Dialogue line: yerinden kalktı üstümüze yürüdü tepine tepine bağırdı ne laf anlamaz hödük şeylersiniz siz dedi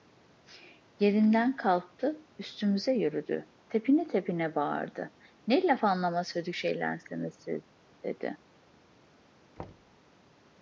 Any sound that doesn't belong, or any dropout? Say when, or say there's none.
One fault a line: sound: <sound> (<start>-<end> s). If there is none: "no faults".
sound: thud (9.6-10.0 s)